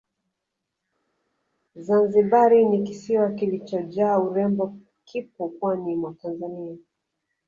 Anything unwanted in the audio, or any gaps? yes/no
no